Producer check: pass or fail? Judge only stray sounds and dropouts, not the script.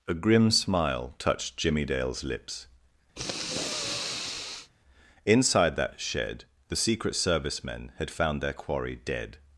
fail